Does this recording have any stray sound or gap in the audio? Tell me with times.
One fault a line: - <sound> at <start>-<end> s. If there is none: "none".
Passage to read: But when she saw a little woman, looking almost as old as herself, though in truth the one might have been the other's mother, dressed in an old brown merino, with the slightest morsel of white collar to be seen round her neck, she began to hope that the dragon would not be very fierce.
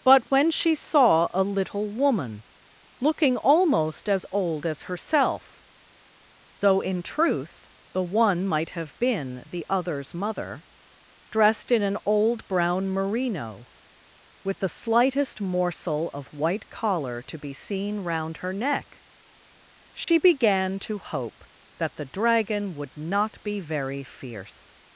- dropout at 20.0-20.1 s